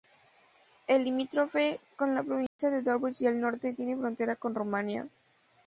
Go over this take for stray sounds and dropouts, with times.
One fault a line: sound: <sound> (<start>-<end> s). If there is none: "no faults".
sound: dropout (2.5-2.6 s)